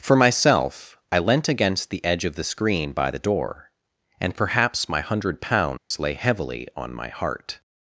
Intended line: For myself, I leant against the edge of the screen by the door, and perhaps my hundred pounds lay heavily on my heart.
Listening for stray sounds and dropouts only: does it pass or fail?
fail